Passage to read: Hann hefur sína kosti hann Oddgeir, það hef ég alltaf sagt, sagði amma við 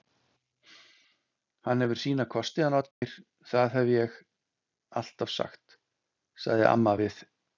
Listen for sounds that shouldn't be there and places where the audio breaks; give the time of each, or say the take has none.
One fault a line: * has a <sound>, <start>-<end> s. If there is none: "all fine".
* has a dropout, 2.9-3.0 s